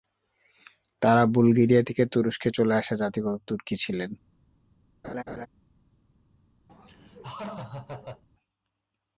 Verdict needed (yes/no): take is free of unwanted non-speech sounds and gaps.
no